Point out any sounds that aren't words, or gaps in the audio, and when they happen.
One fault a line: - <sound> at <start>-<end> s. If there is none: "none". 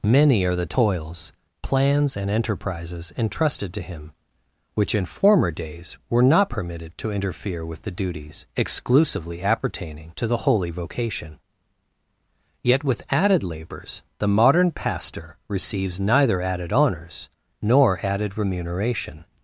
none